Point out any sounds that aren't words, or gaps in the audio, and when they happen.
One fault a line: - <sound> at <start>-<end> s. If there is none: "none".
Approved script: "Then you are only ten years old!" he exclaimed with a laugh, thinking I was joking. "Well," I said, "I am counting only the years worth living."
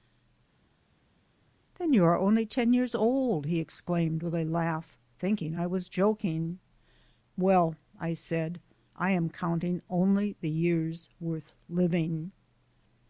none